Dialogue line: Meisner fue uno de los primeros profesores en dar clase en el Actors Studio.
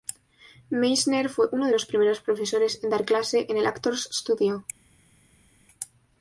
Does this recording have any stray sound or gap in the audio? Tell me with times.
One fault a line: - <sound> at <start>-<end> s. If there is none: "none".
none